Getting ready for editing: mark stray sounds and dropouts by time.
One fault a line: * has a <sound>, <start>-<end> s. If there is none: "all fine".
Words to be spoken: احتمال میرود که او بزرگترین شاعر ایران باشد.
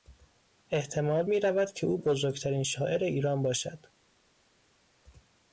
all fine